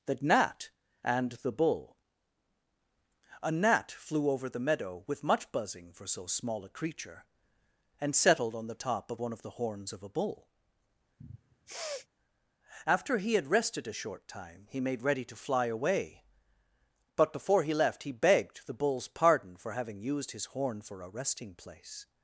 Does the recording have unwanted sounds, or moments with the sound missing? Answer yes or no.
yes